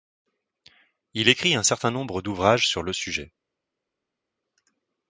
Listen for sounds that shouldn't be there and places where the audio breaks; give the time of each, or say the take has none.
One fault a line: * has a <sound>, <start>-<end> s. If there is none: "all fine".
all fine